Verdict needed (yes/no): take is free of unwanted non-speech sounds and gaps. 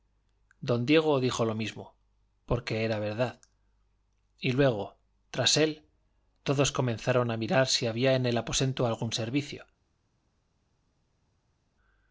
yes